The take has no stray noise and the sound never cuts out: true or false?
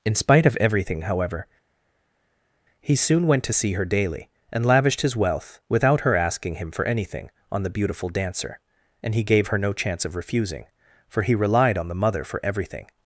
true